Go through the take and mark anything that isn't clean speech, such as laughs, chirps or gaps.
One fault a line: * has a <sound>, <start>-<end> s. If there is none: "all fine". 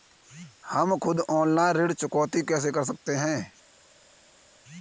all fine